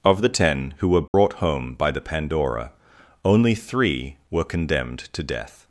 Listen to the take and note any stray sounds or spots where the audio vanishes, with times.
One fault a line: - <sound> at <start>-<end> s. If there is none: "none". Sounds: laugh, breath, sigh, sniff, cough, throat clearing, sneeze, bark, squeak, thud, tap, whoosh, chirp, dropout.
- dropout at 1.1-1.1 s